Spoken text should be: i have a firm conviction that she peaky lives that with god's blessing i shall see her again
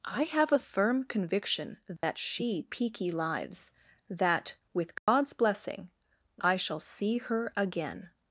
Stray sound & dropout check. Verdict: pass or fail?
fail